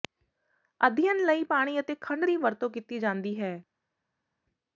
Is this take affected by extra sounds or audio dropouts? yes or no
no